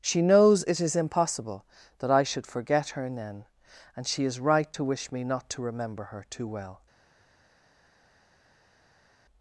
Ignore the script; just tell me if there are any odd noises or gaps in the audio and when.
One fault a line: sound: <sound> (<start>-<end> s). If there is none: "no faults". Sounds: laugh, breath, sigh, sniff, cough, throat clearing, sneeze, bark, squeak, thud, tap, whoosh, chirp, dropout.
no faults